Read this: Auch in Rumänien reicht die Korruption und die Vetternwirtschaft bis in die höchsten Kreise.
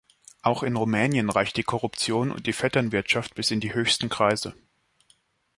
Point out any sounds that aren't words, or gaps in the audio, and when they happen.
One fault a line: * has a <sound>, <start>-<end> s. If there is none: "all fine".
all fine